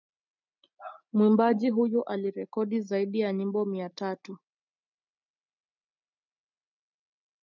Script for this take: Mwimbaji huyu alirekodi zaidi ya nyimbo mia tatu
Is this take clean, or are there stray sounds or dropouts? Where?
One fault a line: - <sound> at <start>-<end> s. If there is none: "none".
none